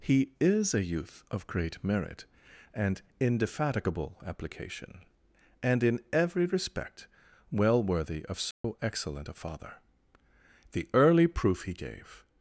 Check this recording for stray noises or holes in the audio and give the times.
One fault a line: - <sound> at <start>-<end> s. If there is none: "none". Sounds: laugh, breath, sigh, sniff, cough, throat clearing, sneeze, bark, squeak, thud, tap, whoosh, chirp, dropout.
- dropout at 8.5-8.6 s